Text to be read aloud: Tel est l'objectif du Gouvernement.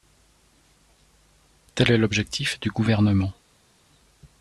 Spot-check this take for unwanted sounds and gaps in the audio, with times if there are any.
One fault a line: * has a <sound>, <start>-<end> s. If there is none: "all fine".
all fine